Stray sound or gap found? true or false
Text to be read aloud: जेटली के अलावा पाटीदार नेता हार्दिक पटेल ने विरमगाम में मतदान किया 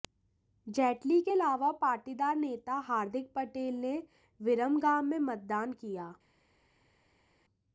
false